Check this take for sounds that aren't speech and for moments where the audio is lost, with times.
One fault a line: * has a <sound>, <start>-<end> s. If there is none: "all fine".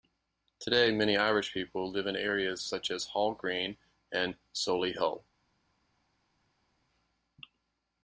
all fine